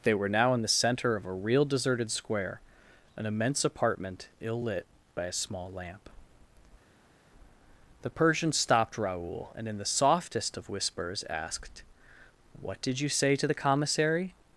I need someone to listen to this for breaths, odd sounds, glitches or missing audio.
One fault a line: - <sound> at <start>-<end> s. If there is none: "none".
none